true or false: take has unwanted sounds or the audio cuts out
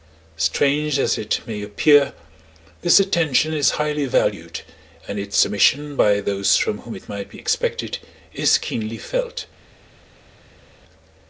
false